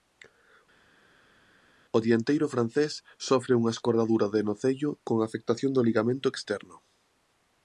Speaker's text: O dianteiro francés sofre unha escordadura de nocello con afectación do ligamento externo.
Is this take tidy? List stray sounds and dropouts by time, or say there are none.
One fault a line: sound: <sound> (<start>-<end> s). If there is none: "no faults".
no faults